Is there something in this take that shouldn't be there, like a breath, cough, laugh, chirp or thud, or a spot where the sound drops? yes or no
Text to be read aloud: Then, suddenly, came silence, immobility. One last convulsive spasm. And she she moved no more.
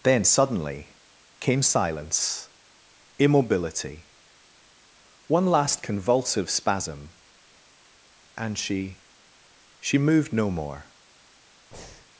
yes